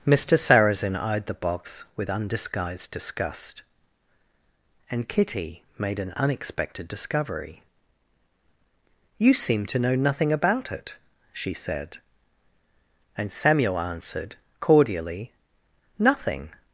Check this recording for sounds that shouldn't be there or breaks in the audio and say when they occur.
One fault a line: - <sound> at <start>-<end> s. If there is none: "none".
none